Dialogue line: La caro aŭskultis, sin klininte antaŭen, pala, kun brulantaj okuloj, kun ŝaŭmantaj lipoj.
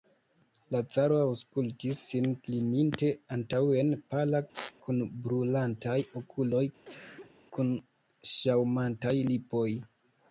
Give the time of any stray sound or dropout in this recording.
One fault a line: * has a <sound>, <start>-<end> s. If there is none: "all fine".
* has a squeak, 4.5-4.7 s
* has a cough, 6.8-7.4 s